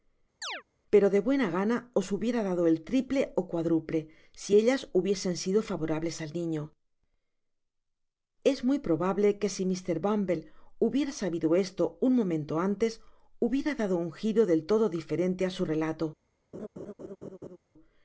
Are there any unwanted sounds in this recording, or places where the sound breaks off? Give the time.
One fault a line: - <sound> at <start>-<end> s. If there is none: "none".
- chirp at 0.4-0.6 s
- laugh at 16.5-17.6 s